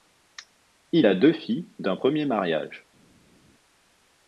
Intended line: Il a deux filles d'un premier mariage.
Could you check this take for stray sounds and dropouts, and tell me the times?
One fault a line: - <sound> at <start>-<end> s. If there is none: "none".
none